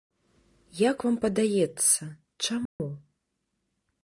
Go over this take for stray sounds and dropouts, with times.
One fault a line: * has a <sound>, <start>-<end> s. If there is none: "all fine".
* has a dropout, 2.7-2.8 s